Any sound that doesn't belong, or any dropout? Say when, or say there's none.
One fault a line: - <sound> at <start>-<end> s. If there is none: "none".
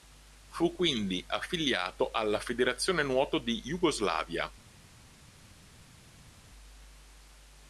none